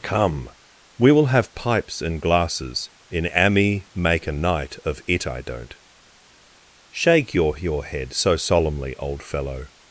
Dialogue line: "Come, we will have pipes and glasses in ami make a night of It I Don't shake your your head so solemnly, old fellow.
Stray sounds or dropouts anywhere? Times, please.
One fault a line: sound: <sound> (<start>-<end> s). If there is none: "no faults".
no faults